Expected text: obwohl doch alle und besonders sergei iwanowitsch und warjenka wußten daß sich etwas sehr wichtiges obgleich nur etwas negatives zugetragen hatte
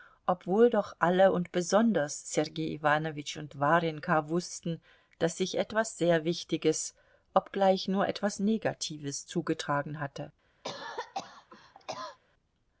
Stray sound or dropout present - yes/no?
yes